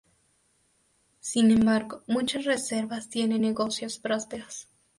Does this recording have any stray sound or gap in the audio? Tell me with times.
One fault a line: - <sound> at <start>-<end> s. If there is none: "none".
none